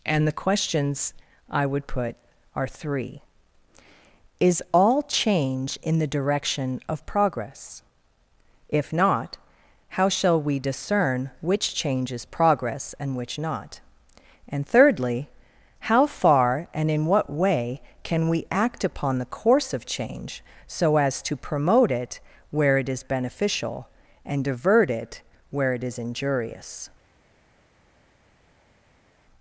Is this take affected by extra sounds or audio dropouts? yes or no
no